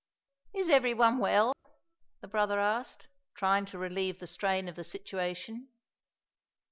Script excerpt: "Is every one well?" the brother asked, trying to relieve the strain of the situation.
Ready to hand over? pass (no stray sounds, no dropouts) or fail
fail